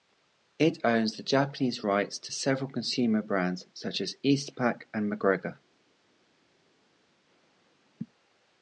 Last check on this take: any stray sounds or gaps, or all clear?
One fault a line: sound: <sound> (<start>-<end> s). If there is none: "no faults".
no faults